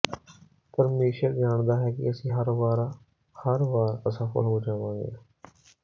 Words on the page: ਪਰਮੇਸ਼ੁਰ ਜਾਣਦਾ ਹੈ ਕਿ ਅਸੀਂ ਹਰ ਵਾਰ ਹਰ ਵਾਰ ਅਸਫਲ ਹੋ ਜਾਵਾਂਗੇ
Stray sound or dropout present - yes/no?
no